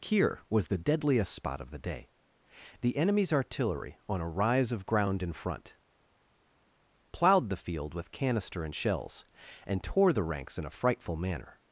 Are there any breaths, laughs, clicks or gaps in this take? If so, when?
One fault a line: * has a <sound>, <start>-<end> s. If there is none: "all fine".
all fine